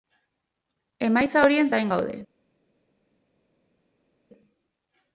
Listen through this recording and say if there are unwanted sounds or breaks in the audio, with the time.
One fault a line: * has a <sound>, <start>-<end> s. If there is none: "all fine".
all fine